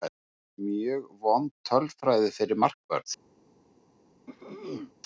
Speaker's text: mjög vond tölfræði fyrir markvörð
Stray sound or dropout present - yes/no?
yes